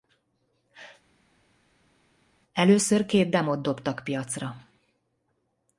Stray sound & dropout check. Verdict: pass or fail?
pass